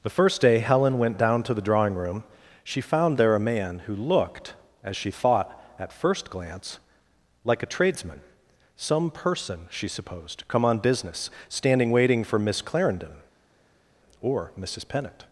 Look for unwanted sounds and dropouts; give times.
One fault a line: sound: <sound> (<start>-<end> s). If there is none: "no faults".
no faults